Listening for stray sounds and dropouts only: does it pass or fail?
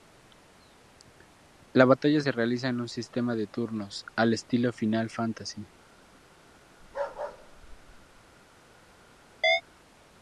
fail